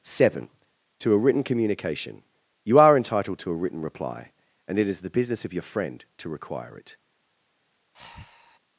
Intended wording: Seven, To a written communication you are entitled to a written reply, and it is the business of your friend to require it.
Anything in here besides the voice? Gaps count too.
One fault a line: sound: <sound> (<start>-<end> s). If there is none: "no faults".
sound: breath (7.9-8.6 s)